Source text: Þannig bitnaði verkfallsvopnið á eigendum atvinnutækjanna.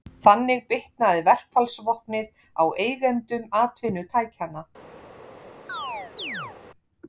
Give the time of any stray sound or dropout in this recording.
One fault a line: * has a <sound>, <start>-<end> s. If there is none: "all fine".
* has a chirp, 5.7-6.6 s